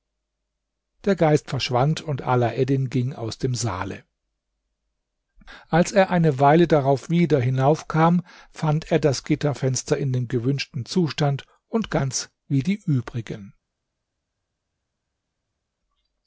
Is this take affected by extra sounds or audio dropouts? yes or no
no